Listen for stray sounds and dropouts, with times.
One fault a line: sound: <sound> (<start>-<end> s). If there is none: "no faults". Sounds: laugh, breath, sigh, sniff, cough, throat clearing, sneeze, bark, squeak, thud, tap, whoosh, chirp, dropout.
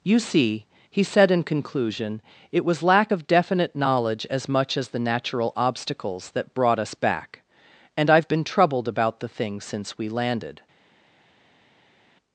no faults